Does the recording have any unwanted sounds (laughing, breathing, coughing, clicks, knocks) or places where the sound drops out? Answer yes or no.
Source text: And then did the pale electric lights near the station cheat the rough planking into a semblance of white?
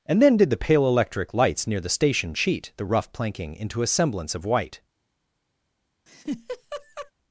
yes